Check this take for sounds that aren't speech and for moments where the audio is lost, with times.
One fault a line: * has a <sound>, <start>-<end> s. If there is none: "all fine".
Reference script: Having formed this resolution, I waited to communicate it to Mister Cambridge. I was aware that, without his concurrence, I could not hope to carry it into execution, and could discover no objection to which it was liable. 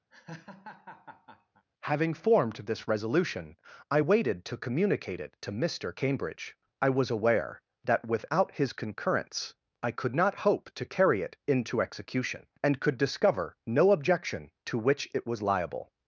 * has a laugh, 0.1-1.6 s